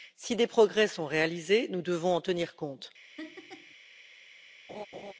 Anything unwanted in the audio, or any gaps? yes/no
yes